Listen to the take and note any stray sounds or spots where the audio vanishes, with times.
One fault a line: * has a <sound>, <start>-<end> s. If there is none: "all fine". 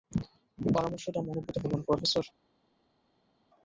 all fine